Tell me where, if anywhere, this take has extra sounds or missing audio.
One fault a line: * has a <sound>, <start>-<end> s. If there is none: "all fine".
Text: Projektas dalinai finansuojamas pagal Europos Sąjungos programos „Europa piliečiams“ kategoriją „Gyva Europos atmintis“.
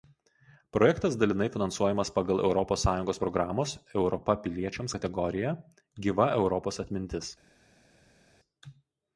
all fine